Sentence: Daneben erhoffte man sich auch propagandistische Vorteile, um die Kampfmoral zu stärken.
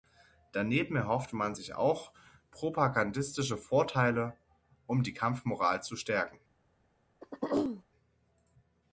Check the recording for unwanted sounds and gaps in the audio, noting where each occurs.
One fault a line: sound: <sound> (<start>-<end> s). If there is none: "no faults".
sound: throat clearing (7.2-7.8 s)